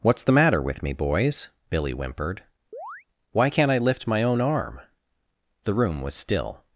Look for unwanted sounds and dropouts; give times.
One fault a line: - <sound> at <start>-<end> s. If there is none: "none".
- chirp at 2.7-3.0 s